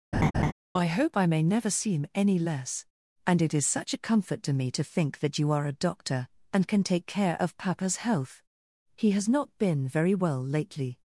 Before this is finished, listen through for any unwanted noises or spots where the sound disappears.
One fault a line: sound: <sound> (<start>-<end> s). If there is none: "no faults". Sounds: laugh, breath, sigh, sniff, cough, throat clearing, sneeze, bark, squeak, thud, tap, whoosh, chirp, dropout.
sound: laugh (0.1-0.5 s)